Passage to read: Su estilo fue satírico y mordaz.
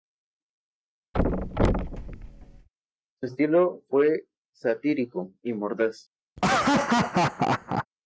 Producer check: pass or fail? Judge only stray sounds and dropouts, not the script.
fail